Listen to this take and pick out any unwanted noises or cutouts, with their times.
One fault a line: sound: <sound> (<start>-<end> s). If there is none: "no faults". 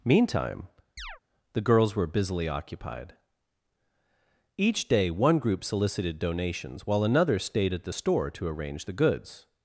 sound: chirp (1.0-1.2 s)